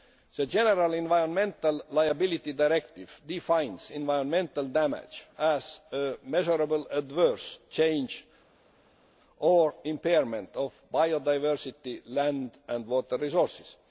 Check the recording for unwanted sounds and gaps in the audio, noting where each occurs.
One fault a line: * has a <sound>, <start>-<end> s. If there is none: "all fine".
all fine